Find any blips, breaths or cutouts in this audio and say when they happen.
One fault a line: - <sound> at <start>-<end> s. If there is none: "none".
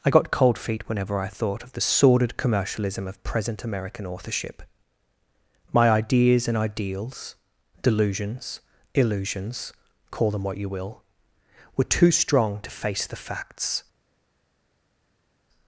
none